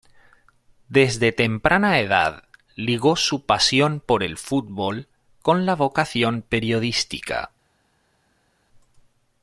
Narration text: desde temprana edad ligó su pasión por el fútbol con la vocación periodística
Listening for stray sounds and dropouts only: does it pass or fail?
pass